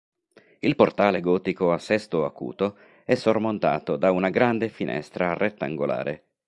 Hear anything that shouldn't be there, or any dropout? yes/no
no